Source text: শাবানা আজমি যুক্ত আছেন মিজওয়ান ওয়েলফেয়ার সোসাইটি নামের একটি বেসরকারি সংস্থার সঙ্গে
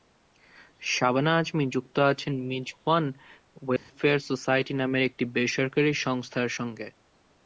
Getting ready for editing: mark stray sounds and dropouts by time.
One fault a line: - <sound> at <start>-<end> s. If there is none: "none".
- dropout at 3.8-3.9 s